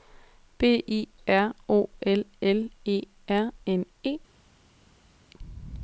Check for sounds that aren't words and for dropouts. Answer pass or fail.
pass